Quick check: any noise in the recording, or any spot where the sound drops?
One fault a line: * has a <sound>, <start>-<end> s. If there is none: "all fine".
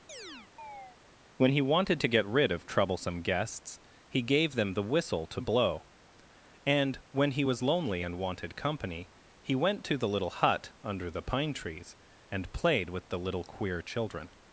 * has a chirp, 0.1-1.0 s